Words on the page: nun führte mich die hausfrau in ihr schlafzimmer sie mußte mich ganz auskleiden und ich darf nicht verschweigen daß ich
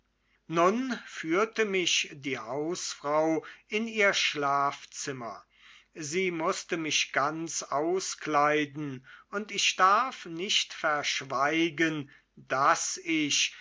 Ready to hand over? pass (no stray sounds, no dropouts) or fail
pass